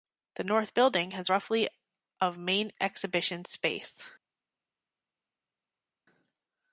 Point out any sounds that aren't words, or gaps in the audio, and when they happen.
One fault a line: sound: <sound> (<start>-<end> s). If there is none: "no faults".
no faults